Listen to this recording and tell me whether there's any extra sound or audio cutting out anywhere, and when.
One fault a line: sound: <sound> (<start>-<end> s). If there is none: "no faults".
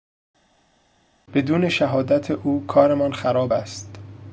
no faults